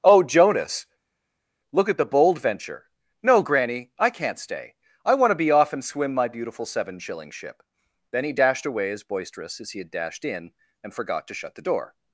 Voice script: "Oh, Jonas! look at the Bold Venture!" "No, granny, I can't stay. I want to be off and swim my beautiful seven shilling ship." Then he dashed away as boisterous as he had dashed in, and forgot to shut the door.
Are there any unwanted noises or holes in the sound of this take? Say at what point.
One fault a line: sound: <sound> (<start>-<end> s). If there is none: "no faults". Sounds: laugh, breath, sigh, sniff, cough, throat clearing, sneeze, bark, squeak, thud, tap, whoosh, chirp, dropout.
no faults